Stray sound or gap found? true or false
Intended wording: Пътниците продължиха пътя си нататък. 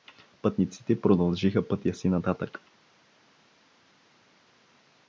false